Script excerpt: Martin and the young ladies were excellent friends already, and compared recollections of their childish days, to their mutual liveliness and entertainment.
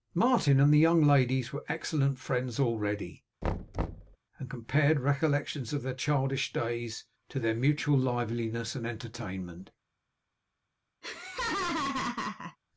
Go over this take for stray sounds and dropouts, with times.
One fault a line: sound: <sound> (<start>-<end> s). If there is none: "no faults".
sound: thud (3.4-4.2 s)
sound: laugh (11.0-12.6 s)